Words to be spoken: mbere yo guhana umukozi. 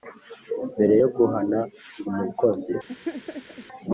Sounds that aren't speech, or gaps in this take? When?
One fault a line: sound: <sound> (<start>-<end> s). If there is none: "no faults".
sound: laugh (2.9-3.7 s)